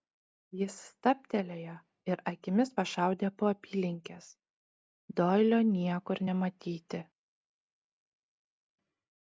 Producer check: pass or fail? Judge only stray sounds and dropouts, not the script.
pass